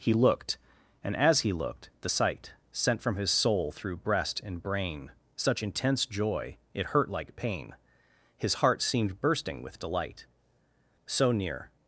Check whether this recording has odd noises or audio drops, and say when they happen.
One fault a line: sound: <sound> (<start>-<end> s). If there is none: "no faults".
no faults